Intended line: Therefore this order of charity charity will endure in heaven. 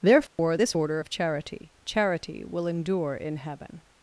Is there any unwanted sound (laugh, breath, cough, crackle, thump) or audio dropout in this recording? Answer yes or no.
yes